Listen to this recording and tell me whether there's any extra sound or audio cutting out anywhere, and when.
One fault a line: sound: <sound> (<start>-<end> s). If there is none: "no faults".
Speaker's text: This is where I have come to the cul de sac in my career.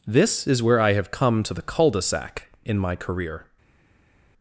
no faults